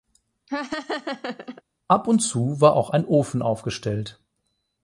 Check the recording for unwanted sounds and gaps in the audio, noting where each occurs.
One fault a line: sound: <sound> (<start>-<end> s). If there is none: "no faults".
sound: laugh (0.5-1.6 s)